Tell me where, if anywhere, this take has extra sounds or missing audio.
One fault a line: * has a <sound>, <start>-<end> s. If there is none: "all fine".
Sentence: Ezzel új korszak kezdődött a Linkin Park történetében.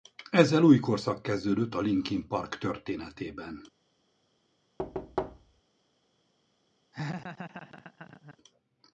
* has a thud, 4.8-5.6 s
* has a laugh, 6.9-8.4 s